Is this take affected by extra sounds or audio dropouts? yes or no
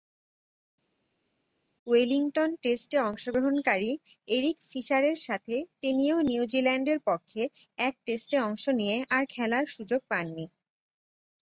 no